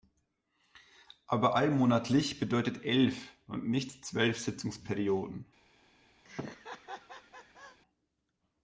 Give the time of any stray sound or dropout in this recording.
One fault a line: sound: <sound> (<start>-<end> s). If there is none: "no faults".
sound: laugh (6.2-7.8 s)